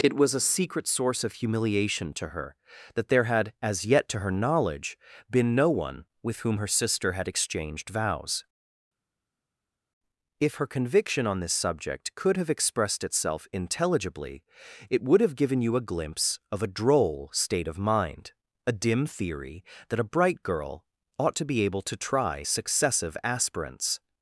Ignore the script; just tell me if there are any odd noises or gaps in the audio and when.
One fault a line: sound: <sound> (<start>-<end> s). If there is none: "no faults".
no faults